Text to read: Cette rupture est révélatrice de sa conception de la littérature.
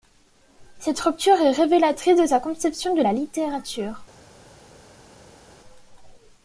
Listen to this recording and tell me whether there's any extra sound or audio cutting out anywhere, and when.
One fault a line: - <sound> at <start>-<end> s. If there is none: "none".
none